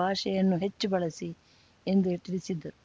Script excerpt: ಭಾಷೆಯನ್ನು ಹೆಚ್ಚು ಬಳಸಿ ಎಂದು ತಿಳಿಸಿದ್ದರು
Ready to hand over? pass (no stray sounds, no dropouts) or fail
pass